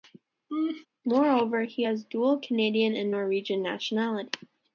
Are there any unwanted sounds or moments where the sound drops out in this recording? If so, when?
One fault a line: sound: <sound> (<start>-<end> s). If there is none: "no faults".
sound: laugh (0.5-0.9 s)